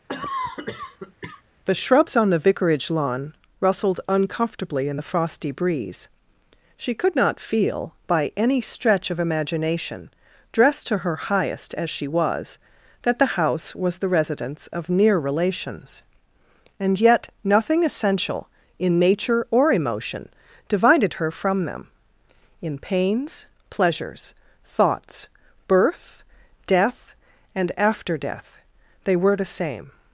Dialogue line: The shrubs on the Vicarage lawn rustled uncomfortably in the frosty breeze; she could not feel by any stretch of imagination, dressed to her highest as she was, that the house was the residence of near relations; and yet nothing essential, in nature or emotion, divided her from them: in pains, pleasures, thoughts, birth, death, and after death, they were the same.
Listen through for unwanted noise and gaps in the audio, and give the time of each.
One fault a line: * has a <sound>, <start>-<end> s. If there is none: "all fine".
* has a cough, 0.1-1.4 s